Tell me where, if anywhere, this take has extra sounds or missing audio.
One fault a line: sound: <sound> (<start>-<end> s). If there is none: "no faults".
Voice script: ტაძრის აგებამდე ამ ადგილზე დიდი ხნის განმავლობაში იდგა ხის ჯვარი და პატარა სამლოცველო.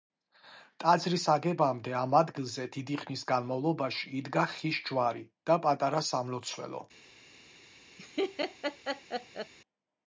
sound: laugh (8.0-9.5 s)